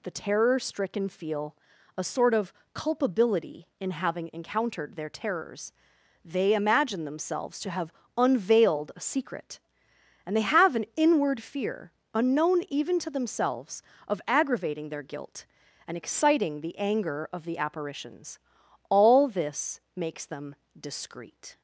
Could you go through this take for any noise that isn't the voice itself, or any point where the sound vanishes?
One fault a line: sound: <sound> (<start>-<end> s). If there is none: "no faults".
no faults